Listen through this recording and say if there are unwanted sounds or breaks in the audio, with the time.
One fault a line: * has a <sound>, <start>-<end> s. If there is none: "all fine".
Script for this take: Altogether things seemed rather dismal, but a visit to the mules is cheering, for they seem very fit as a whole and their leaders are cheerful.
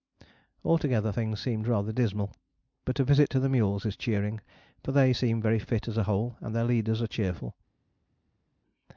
all fine